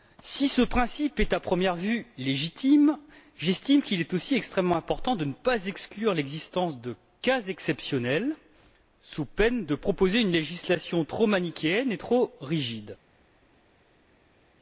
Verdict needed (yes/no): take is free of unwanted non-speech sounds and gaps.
yes